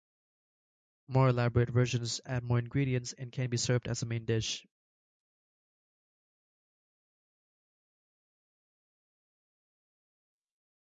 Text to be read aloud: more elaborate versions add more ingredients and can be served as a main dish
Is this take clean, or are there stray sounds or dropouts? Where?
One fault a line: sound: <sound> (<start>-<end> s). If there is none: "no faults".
no faults